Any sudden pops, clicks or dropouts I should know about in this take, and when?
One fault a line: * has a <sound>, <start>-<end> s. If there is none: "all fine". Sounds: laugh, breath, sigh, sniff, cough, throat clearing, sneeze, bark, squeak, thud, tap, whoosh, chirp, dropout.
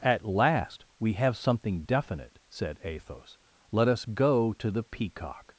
all fine